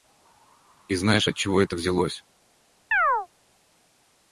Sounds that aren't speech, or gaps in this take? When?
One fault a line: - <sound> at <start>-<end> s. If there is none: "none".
- chirp at 2.9-3.3 s